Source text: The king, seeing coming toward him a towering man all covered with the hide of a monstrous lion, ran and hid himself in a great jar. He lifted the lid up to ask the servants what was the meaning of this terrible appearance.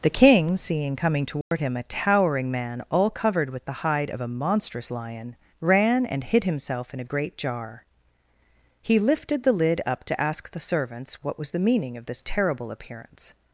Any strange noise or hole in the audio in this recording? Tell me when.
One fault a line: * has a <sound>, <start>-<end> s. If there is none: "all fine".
* has a dropout, 1.4-1.5 s